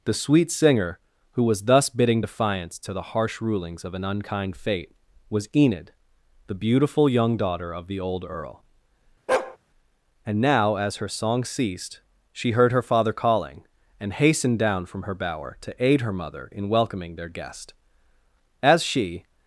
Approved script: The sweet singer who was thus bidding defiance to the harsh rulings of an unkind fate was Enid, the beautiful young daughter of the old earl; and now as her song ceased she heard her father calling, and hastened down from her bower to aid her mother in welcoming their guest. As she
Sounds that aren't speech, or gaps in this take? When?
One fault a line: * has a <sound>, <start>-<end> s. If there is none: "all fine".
* has a bark, 9.3-9.6 s